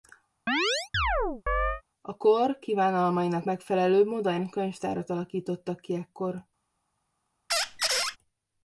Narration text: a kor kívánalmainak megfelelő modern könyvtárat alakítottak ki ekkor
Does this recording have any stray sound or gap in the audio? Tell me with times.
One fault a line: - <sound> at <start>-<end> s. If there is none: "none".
- chirp at 0.5-1.8 s
- squeak at 7.5-8.2 s